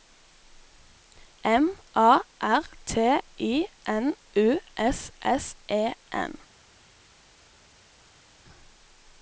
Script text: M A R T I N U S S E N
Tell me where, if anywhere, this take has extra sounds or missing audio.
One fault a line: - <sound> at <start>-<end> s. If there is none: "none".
none